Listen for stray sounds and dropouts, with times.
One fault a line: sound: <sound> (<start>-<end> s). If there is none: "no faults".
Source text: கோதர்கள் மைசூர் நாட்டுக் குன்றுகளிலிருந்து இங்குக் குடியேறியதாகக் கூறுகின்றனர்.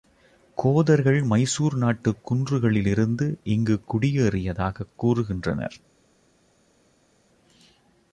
no faults